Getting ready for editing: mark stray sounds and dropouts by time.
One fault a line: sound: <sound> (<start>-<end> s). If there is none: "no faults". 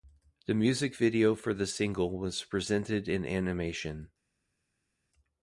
no faults